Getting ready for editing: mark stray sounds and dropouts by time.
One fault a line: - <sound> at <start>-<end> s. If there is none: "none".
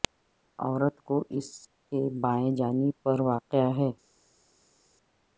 none